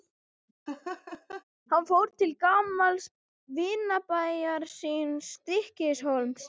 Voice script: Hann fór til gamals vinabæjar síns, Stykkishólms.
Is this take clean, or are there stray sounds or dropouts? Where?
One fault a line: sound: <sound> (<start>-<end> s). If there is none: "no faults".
sound: laugh (0.7-1.4 s)